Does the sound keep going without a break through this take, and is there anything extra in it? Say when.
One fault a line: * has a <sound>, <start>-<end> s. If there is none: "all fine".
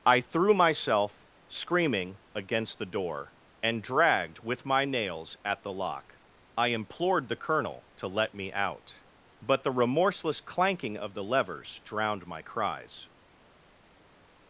all fine